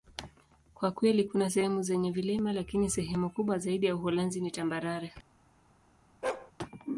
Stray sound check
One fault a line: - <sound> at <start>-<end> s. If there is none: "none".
- bark at 6.2-6.5 s